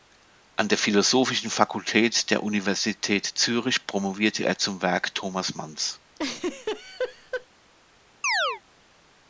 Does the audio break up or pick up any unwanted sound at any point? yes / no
yes